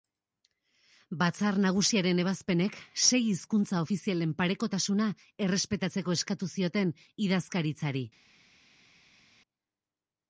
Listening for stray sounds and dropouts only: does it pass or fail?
pass